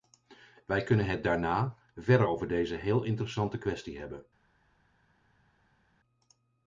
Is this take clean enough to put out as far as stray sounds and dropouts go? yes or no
yes